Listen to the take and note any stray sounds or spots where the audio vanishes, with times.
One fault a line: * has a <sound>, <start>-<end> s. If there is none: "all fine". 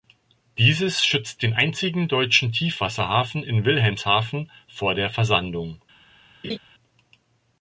* has a laugh, 6.4-6.6 s